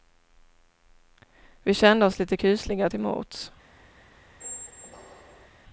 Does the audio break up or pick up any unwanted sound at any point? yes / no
yes